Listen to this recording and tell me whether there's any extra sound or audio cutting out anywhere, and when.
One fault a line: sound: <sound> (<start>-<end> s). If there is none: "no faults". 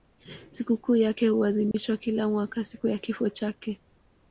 sound: dropout (1.7-1.7 s)